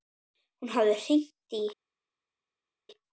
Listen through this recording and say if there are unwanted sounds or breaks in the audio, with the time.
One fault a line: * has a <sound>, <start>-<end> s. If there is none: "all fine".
all fine